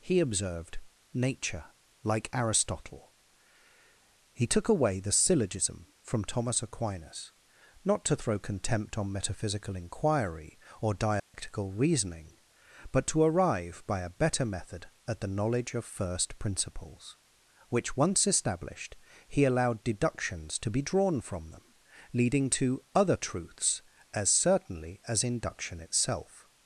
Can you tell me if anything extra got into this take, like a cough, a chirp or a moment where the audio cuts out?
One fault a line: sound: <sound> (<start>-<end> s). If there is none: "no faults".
sound: dropout (11.2-11.3 s)